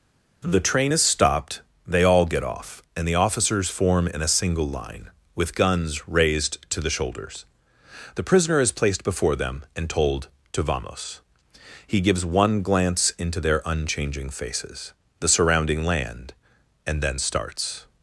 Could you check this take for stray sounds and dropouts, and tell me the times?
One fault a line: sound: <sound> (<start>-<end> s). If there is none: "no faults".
no faults